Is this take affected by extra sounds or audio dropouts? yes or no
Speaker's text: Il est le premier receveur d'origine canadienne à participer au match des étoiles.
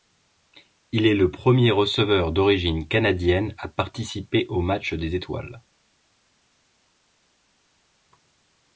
no